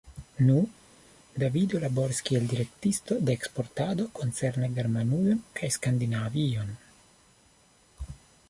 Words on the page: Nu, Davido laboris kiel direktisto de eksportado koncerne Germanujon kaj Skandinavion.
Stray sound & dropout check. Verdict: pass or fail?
pass